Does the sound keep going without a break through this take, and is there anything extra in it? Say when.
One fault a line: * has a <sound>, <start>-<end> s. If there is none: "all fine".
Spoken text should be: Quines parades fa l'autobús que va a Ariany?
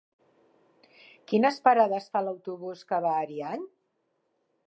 all fine